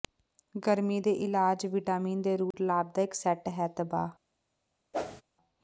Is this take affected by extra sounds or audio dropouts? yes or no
yes